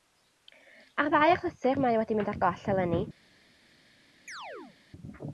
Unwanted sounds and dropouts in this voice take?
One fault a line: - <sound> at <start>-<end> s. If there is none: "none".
- chirp at 4.3-4.8 s